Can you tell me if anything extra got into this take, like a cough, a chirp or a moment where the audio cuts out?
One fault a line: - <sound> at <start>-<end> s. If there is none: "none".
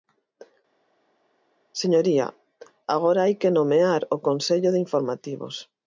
none